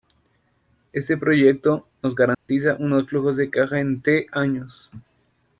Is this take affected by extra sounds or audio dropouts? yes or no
yes